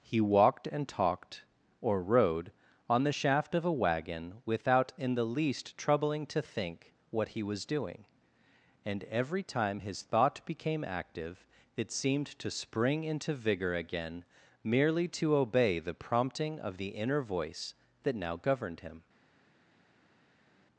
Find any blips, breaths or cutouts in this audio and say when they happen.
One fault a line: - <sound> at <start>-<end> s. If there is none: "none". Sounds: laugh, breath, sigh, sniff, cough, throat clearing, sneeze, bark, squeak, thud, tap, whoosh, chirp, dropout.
none